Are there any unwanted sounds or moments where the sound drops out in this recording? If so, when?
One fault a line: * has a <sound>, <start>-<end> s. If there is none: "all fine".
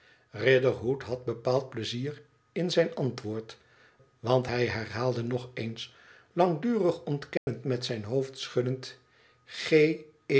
* has a dropout, 7.4-7.5 s